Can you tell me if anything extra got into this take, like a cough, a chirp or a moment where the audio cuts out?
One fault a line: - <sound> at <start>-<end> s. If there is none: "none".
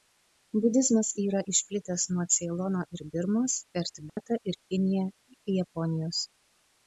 - dropout at 4.1-4.2 s